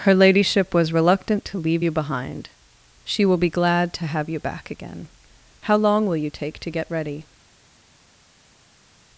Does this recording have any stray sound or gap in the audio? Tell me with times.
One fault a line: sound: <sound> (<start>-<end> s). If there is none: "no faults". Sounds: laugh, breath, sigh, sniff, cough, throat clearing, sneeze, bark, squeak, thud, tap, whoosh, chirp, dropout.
no faults